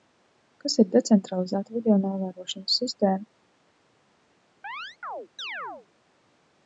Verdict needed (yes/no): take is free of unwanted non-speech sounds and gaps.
no